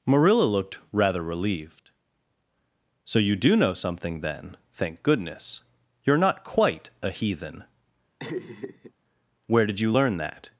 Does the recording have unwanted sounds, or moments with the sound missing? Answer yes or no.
yes